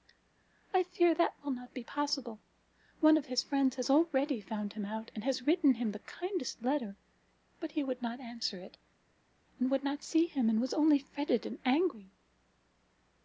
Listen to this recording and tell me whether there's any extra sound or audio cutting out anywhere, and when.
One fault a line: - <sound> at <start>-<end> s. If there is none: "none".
none